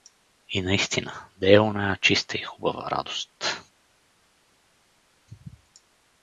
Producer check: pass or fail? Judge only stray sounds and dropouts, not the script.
pass